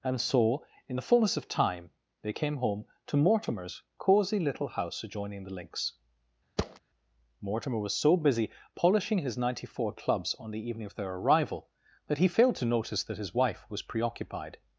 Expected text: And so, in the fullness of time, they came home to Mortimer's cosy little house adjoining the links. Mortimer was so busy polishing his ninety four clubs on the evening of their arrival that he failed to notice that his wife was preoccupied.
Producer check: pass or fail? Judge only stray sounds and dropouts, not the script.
fail